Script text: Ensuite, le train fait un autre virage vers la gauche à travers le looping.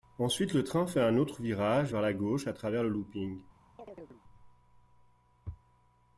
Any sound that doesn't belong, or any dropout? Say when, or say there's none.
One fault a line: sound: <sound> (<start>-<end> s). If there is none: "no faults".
sound: chirp (3.8-4.2 s)